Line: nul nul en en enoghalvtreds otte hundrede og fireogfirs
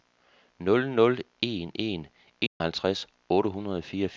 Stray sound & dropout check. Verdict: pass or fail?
fail